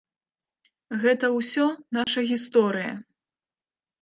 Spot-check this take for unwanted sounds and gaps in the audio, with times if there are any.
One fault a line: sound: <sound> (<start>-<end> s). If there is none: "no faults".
sound: dropout (2.0-2.1 s)